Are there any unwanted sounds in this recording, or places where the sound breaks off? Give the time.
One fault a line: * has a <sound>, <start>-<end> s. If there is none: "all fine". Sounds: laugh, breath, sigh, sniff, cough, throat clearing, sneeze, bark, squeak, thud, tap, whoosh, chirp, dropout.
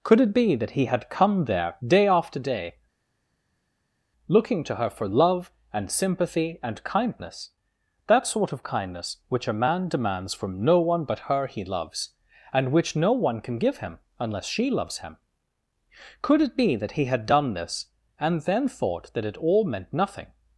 all fine